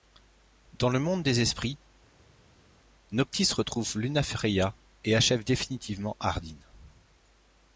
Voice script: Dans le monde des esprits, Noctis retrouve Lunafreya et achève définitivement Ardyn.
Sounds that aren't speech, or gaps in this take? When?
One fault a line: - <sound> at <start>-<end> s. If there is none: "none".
none